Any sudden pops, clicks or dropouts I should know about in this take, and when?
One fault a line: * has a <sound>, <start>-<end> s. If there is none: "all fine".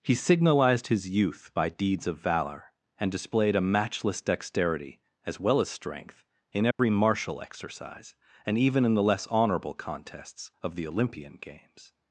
* has a dropout, 6.7-6.8 s